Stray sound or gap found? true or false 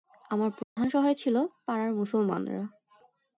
true